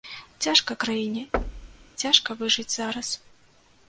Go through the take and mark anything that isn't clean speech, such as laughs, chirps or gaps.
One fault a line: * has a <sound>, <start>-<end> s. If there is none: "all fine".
* has a thud, 1.3-1.9 s